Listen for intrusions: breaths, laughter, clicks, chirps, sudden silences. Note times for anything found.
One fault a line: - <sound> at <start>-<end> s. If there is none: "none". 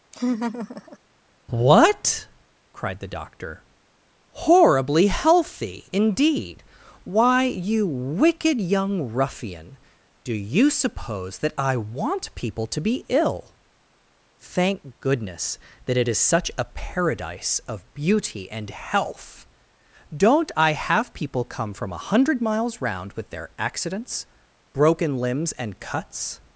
- laugh at 0.1-1.0 s